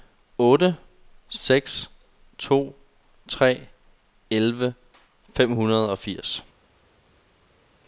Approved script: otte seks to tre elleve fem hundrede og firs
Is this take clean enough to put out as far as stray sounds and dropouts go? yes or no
yes